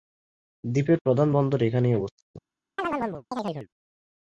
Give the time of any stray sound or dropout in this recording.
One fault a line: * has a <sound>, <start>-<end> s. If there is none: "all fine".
* has a chirp, 2.8-3.7 s